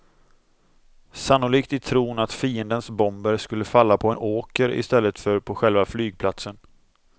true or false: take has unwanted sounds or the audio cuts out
false